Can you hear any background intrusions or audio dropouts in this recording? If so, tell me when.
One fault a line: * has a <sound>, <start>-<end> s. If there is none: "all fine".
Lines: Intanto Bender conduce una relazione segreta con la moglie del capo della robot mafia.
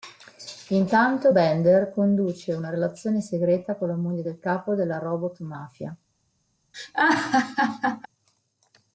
* has a laugh, 6.7-8.1 s